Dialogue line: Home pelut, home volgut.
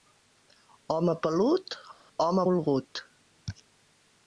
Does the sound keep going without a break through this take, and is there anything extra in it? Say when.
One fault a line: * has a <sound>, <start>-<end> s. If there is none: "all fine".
all fine